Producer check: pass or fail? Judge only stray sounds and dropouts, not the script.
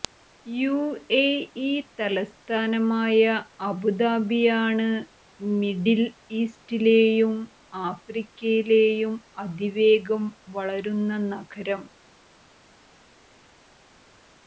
pass